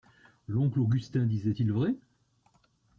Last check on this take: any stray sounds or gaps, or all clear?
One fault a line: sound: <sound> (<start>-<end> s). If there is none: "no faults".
no faults